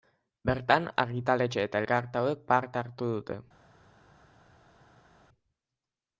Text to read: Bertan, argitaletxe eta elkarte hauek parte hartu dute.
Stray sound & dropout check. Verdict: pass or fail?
pass